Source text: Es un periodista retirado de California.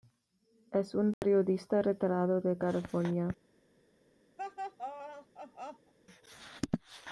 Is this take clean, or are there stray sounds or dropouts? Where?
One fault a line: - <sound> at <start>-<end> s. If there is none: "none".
- dropout at 1.1-1.2 s
- laugh at 4.4-5.9 s